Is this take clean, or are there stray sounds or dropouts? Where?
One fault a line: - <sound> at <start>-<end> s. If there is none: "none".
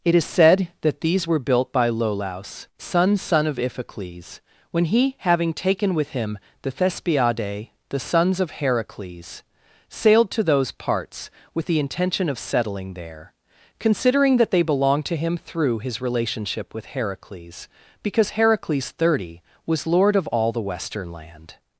none